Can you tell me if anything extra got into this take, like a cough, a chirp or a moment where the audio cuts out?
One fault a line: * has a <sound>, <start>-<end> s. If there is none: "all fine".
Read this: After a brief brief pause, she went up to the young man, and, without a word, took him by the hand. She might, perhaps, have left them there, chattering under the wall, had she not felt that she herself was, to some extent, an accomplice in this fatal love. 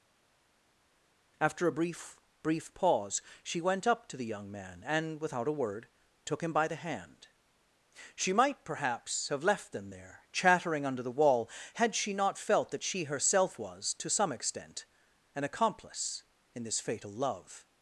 all fine